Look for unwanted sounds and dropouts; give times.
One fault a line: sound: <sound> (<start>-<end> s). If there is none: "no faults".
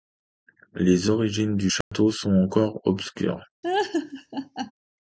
sound: dropout (1.8-1.9 s)
sound: laugh (3.6-4.7 s)